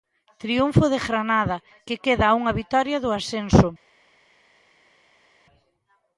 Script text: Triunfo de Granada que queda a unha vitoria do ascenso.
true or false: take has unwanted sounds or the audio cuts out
false